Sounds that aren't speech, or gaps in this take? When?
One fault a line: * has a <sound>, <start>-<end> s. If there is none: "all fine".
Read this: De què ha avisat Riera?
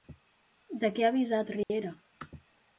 * has a dropout, 1.6-1.7 s